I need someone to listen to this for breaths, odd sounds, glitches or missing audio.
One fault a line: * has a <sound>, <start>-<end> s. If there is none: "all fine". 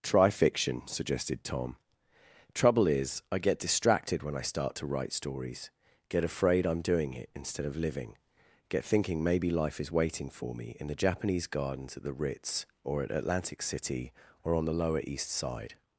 all fine